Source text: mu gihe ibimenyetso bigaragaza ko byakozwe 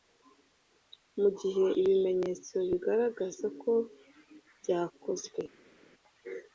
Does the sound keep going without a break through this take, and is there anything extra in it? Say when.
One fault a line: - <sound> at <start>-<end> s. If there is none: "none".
none